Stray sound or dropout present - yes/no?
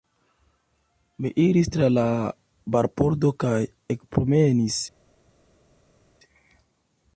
no